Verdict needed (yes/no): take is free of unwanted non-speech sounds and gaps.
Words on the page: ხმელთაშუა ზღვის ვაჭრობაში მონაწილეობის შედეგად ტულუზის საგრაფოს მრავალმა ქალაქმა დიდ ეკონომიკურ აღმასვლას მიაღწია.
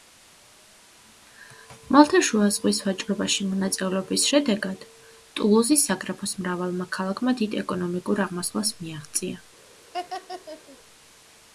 no